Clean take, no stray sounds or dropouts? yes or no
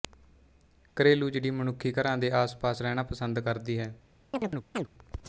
no